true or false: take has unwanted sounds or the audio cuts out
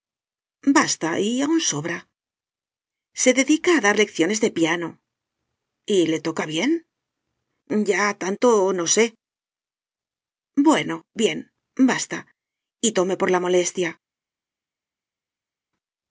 false